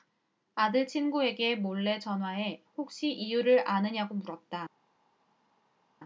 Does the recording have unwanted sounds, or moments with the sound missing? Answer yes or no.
no